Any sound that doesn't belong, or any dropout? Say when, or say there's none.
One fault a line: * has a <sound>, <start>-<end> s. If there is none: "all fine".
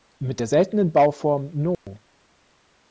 * has a dropout, 1.7-1.9 s